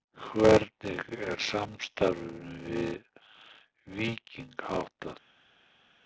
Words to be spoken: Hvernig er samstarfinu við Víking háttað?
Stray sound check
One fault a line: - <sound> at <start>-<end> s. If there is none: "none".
none